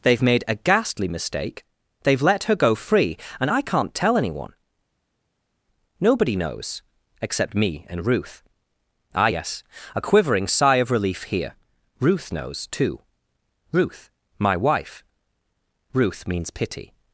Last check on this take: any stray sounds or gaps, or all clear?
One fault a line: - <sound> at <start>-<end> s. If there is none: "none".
none